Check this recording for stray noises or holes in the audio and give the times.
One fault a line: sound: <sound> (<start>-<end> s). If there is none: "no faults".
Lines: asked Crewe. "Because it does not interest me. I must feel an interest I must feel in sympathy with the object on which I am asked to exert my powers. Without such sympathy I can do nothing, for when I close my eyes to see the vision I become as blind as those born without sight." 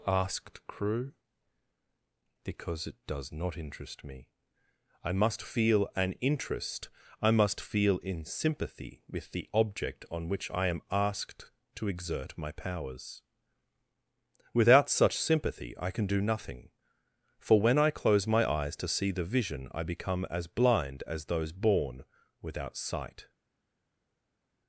no faults